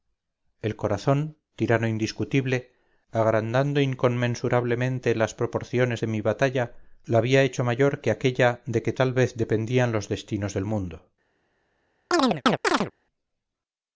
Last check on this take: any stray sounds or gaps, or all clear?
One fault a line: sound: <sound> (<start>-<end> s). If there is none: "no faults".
sound: chirp (12.1-12.9 s)